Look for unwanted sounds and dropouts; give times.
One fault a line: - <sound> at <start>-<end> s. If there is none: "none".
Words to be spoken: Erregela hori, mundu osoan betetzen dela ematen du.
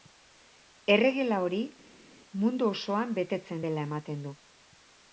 none